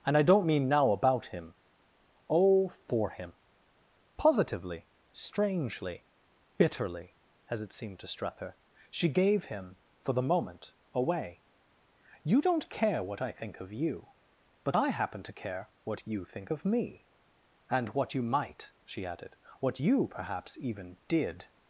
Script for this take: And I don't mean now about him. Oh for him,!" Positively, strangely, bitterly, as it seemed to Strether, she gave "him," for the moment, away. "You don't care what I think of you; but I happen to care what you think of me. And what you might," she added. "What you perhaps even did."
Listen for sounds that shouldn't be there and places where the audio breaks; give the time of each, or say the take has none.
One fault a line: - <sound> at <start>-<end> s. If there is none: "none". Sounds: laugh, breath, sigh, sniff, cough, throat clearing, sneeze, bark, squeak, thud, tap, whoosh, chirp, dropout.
none